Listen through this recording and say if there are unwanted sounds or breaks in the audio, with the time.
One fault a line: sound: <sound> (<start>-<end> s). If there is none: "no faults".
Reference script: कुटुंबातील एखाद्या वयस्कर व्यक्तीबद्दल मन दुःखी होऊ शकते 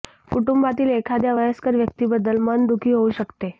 no faults